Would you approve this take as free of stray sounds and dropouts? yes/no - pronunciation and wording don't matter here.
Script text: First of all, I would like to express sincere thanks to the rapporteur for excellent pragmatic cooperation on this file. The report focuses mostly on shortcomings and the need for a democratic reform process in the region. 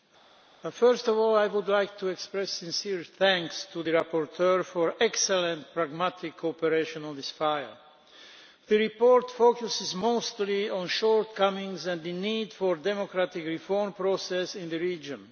yes